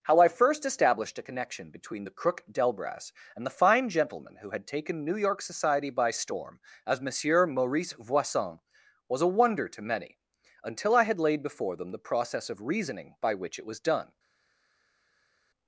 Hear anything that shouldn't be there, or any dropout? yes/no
no